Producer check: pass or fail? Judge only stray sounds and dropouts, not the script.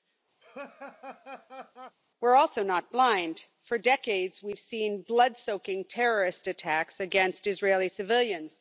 fail